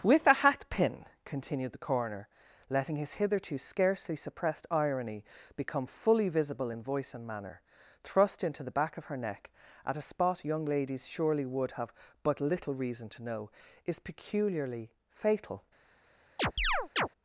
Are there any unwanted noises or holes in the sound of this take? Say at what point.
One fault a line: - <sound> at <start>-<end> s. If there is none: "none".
- chirp at 16.4-17.1 s